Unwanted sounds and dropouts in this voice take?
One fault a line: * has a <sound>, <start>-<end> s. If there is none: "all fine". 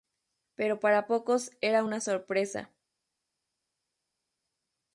all fine